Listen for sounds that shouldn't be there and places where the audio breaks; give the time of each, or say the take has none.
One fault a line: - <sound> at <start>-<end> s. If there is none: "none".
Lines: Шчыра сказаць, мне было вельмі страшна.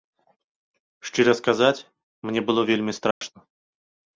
- dropout at 3.1-3.2 s